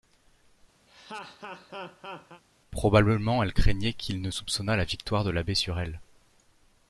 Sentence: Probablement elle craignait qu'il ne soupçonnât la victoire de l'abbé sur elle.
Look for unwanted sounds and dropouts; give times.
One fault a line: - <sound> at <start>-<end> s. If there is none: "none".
- laugh at 0.9-2.4 s